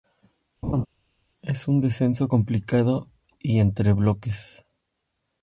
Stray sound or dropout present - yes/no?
yes